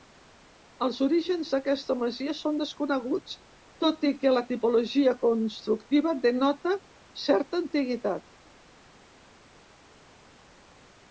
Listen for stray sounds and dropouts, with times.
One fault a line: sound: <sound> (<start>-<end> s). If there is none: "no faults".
no faults